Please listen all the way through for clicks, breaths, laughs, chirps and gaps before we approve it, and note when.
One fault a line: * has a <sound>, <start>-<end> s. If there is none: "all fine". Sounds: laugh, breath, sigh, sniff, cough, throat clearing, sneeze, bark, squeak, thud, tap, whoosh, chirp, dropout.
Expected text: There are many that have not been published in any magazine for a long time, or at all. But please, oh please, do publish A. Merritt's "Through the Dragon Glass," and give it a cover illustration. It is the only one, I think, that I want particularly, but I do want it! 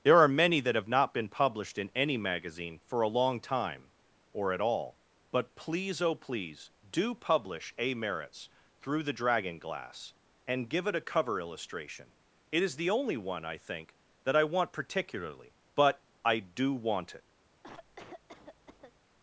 * has a cough, 17.6-19.0 s